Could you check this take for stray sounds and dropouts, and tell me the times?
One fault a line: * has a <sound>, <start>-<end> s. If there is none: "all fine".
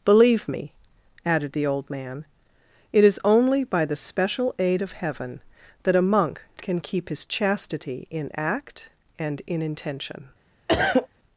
* has a cough, 10.7-11.1 s